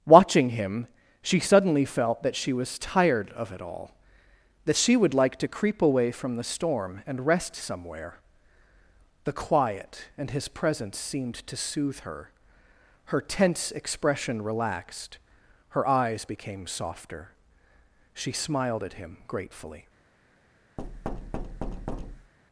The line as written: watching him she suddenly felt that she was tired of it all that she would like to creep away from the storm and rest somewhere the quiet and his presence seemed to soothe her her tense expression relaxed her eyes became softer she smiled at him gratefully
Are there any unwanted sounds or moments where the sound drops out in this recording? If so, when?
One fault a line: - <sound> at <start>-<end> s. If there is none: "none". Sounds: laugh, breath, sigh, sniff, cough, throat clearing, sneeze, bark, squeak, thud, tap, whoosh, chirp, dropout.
- thud at 20.8-22.3 s